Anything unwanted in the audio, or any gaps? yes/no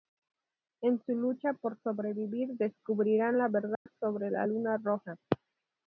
yes